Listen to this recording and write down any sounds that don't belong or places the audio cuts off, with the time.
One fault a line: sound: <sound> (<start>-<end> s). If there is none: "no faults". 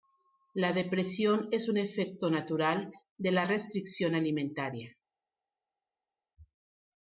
no faults